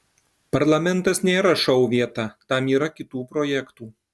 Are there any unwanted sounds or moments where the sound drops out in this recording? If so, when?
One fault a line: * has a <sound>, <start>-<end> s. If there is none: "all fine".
all fine